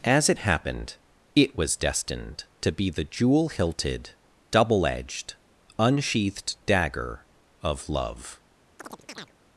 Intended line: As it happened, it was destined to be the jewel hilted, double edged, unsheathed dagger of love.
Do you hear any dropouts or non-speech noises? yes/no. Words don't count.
yes